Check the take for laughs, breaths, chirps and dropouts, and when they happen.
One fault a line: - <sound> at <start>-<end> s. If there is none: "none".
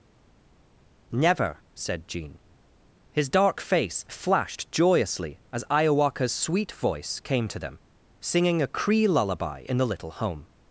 none